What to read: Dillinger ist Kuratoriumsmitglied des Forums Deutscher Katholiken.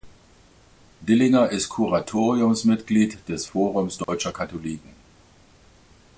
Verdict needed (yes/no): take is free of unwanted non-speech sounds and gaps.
no